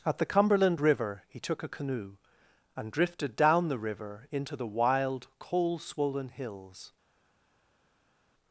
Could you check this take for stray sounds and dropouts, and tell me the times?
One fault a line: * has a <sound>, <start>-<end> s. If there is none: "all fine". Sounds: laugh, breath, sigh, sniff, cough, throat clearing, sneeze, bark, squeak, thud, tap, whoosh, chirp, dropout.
all fine